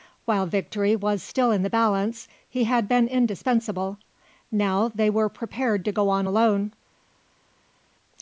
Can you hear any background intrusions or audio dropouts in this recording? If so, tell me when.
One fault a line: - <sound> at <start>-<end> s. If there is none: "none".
none